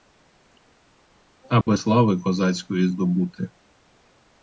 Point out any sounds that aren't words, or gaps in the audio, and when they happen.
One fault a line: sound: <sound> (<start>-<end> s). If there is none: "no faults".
sound: dropout (1.6-1.7 s)